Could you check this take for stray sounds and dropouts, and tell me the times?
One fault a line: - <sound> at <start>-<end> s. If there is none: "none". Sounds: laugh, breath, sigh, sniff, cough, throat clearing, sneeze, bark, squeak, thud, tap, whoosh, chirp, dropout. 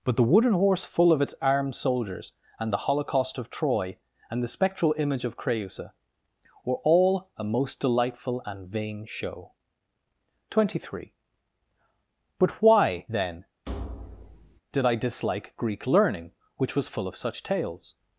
- thud at 13.7-14.6 s